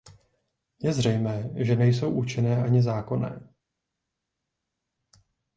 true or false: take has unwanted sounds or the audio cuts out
false